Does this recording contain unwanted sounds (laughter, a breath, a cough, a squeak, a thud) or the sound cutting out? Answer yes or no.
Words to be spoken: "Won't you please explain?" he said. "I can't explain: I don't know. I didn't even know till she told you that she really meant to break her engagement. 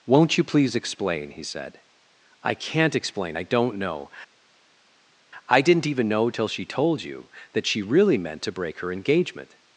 no